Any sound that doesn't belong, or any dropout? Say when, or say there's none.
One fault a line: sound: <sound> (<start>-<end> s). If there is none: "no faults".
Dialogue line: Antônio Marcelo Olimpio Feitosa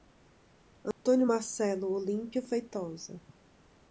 sound: dropout (0.9-1.1 s)